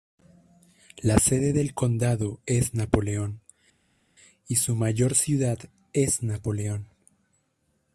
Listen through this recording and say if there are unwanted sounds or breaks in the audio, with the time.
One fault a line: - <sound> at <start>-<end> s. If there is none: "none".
none